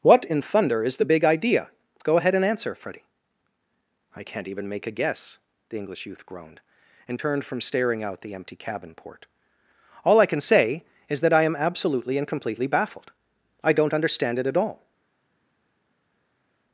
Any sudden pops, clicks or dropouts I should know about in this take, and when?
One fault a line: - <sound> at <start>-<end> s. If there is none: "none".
none